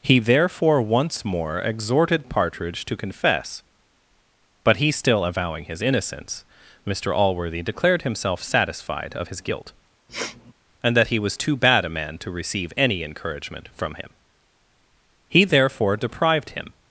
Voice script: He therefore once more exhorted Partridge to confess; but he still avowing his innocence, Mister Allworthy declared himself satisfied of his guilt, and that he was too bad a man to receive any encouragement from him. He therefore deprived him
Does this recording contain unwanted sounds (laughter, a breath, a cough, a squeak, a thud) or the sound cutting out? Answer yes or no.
yes